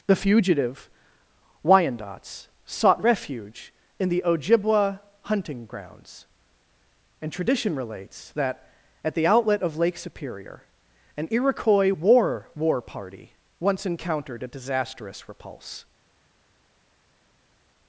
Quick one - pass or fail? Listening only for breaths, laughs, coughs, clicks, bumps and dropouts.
pass